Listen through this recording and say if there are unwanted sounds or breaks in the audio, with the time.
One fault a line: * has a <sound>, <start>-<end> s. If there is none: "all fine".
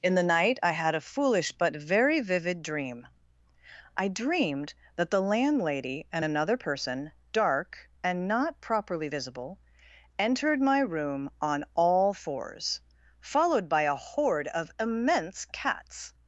all fine